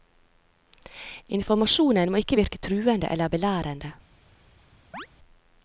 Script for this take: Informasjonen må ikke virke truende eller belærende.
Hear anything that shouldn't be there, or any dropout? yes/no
yes